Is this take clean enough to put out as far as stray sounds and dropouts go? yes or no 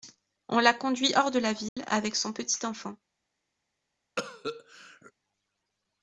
no